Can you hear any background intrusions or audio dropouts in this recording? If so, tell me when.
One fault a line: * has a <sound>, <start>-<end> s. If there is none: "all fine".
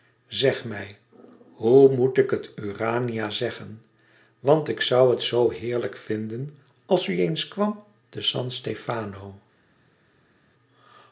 all fine